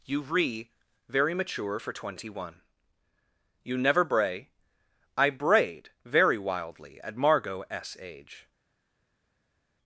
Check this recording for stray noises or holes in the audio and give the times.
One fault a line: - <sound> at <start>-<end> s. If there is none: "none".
none